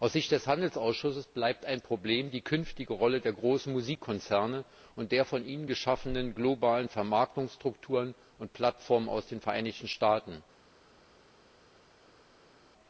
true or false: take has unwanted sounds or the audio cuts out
false